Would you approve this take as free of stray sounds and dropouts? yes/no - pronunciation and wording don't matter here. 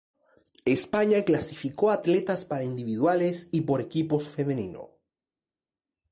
yes